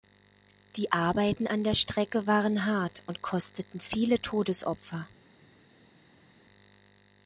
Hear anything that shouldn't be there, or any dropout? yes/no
no